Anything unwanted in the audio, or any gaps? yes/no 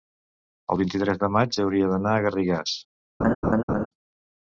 yes